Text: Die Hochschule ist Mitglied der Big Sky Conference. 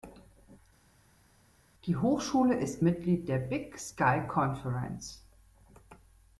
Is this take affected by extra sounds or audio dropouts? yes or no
no